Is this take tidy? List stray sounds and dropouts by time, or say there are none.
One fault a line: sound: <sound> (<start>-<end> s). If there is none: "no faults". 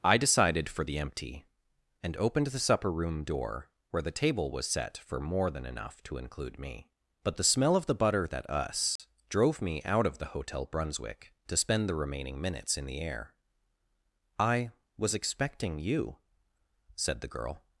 sound: dropout (9.0-9.0 s)